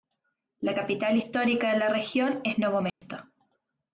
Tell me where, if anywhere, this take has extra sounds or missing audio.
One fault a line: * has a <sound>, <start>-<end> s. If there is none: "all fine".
* has a dropout, 2.9-3.0 s